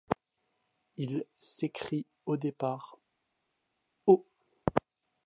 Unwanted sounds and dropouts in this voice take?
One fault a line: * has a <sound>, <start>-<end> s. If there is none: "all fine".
all fine